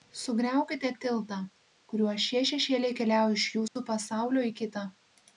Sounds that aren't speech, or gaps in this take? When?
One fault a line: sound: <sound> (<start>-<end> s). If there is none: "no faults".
sound: dropout (3.7-3.8 s)